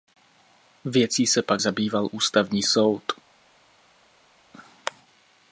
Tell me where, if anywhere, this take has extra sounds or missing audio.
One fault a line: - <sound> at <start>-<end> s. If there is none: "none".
none